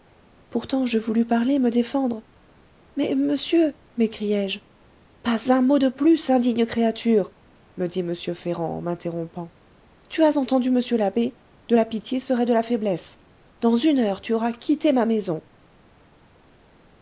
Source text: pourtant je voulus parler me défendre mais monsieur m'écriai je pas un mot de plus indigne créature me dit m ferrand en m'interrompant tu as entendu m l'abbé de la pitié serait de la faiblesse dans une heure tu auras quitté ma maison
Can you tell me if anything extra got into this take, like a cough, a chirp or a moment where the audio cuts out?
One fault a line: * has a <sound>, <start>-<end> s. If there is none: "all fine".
all fine